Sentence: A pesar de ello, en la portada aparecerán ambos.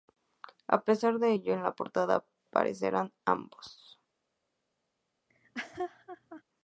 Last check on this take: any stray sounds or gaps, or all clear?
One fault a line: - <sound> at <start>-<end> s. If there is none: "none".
- laugh at 5.3-6.4 s